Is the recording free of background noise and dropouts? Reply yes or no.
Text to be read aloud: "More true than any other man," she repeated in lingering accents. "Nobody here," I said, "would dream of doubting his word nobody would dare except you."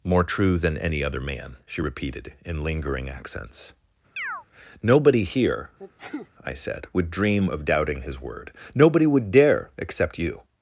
no